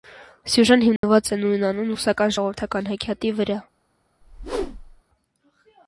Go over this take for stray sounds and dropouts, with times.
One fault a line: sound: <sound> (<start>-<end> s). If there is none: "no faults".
sound: dropout (1.0-1.0 s)
sound: whoosh (4.2-5.0 s)